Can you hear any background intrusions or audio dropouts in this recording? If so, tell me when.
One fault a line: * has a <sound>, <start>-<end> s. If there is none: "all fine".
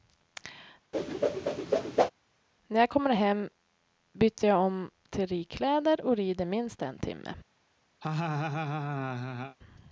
* has a whoosh, 0.9-2.1 s
* has a laugh, 8.0-9.6 s